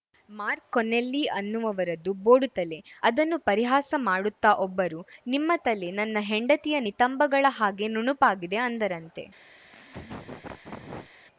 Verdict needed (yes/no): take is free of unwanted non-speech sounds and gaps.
no